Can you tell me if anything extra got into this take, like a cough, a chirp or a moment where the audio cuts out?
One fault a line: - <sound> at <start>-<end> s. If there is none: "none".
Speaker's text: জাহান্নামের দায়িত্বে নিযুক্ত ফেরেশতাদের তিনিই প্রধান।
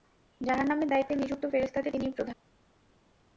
none